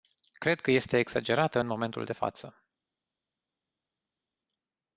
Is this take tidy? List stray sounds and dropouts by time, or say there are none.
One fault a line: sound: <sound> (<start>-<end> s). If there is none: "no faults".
no faults